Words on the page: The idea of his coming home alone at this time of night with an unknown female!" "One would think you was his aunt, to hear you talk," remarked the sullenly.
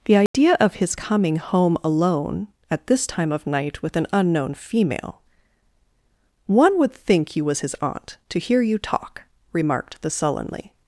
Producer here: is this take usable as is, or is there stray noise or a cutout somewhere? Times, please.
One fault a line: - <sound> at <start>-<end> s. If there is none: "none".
- dropout at 0.3-0.3 s